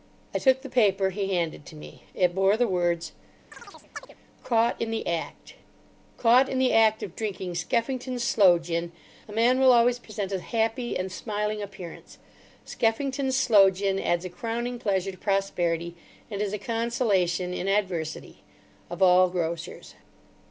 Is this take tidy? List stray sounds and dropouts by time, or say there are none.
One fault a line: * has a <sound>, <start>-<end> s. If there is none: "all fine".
* has a chirp, 3.5-4.1 s